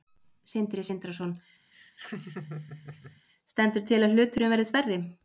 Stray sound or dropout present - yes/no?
yes